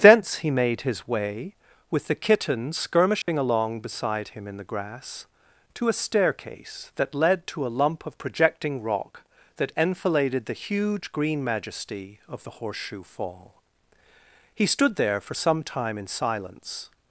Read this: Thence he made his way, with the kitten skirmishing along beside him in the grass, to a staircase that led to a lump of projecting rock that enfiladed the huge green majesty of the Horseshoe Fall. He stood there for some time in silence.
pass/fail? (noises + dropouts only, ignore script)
fail